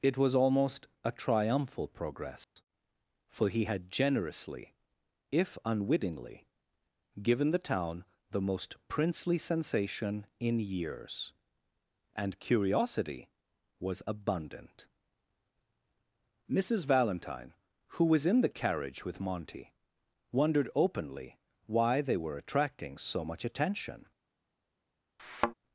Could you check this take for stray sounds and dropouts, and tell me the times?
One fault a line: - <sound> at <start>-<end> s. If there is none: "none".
- dropout at 2.4-2.6 s
- thud at 25.2-25.5 s